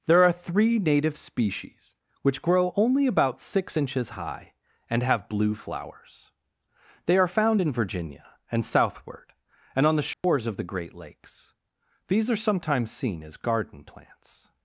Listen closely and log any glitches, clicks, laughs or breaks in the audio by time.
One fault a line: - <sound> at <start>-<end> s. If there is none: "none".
- dropout at 10.1-10.2 s